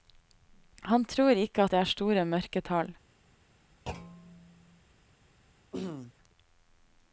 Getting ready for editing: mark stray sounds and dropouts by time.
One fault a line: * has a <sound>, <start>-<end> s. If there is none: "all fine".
* has a thud, 3.9-4.8 s
* has a throat clearing, 5.7-6.1 s